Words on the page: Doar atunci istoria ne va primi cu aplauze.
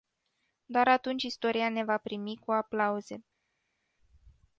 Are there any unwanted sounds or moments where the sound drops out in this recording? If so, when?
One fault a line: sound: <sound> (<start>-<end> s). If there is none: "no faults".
no faults